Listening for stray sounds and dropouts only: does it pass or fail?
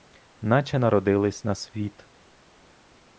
pass